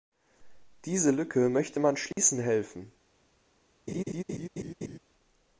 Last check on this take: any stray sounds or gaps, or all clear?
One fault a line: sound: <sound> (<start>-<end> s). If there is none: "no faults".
sound: dropout (2.1-2.2 s)
sound: laugh (3.9-5.0 s)